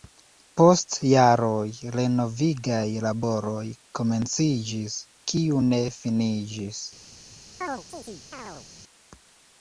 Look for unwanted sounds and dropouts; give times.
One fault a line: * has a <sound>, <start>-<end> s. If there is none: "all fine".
* has a chirp, 7.6-8.7 s